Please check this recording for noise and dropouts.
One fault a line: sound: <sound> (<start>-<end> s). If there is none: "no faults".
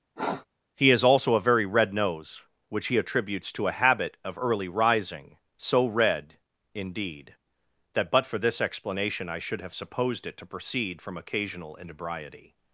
sound: sniff (0.2-0.5 s)